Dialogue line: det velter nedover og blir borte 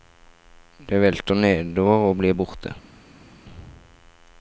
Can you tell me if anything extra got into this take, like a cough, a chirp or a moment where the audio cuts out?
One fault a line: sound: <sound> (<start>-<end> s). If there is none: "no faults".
no faults